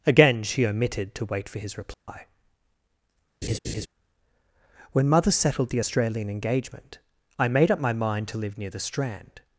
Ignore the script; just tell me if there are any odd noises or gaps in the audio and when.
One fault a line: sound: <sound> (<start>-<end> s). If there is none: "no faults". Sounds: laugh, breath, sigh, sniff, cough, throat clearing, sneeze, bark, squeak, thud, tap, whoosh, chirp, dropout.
sound: dropout (1.9-2.1 s)
sound: laugh (3.4-3.9 s)